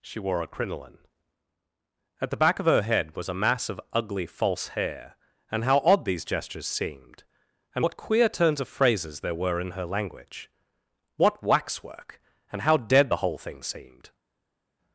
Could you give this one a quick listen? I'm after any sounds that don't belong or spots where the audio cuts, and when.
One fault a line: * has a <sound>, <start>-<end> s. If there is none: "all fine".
all fine